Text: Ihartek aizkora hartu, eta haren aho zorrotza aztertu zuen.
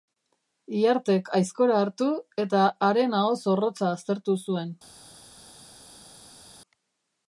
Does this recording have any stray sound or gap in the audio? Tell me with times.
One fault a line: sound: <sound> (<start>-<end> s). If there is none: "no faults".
no faults